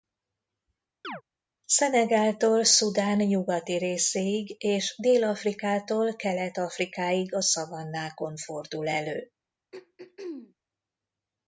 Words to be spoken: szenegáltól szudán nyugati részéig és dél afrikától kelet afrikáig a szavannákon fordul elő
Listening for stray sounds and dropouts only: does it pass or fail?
fail